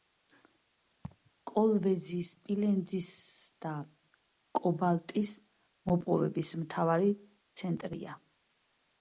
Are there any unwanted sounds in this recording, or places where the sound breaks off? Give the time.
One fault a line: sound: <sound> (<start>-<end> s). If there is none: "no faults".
sound: laugh (1.0-1.3 s)